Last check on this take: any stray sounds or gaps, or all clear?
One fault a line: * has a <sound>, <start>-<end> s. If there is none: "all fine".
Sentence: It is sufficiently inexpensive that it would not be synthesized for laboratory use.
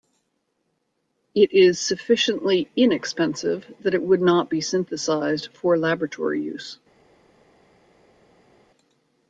all fine